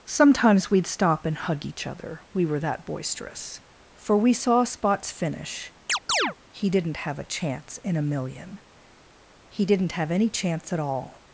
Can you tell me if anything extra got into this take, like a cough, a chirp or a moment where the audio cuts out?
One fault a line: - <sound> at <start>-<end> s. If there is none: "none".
- chirp at 5.9-6.4 s